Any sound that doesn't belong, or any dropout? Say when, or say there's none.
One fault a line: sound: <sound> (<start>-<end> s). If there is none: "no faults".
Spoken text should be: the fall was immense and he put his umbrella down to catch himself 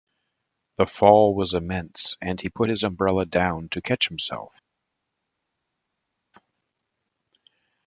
no faults